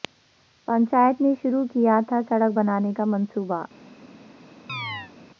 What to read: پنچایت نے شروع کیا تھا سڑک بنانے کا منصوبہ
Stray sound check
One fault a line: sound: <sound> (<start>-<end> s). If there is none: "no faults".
sound: chirp (4.7-5.1 s)